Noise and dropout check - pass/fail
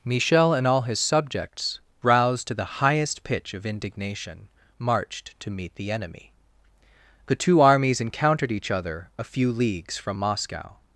pass